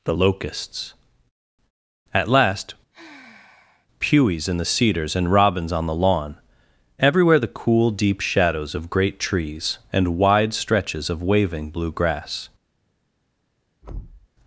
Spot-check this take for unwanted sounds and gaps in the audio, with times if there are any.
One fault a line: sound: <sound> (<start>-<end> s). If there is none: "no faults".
sound: sigh (2.9-3.9 s)
sound: thud (13.8-14.3 s)